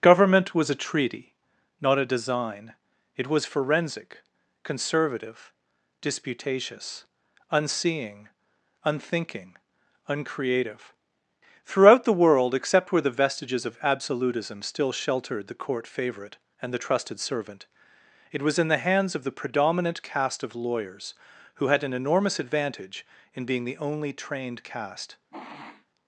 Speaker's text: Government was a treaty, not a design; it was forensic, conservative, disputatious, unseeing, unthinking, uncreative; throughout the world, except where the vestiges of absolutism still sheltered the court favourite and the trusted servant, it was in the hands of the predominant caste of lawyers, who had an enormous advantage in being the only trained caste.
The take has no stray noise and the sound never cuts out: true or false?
false